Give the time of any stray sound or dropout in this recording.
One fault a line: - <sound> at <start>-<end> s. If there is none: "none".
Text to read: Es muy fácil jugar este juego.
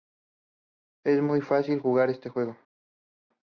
none